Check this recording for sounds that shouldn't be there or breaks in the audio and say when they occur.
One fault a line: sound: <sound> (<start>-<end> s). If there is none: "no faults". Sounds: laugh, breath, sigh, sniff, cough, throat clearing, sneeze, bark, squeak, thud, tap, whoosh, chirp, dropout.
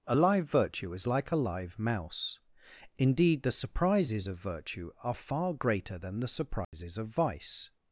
sound: dropout (6.6-6.7 s)